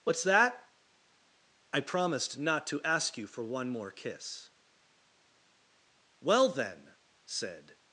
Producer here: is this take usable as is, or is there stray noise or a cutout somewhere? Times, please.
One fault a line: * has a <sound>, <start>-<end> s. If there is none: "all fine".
all fine